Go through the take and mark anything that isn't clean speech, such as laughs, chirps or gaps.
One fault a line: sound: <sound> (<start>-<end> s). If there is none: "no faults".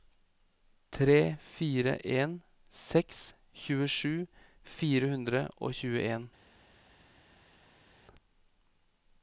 no faults